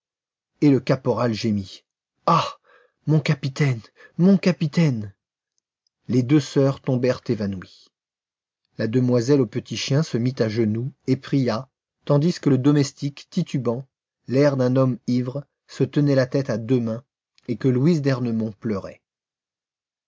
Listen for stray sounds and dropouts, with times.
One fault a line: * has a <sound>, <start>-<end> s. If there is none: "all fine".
all fine